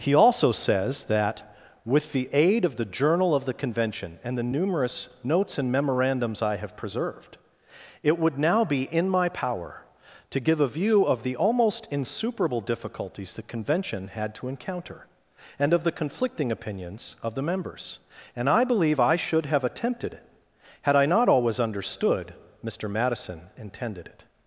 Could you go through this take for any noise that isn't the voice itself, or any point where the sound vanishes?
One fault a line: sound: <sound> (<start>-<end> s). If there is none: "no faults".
no faults